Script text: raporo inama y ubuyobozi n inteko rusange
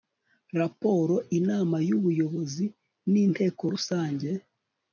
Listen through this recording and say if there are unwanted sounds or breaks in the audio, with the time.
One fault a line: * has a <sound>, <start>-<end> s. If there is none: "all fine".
all fine